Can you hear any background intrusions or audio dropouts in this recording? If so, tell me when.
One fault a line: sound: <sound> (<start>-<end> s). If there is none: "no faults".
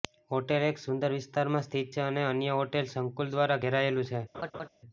sound: laugh (4.3-4.7 s)